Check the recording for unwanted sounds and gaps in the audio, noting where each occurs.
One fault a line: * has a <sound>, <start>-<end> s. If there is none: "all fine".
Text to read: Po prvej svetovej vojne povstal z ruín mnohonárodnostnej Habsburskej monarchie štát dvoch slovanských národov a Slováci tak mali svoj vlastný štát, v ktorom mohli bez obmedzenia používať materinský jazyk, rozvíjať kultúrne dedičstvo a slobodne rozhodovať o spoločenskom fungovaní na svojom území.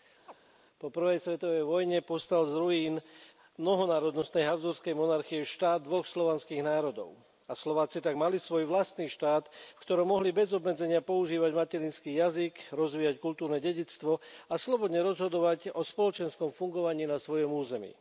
* has a chirp, 0.3-0.3 s